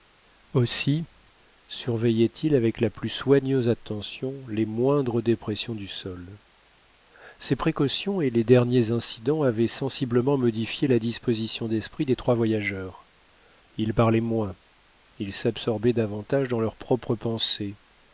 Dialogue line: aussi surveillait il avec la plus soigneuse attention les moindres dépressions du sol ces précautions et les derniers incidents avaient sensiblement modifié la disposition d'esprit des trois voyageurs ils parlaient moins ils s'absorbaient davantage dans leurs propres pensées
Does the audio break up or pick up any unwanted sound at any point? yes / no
no